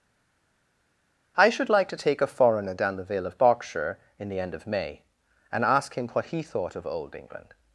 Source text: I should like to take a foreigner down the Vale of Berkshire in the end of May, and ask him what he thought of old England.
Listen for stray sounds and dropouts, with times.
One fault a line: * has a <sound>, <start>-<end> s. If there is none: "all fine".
all fine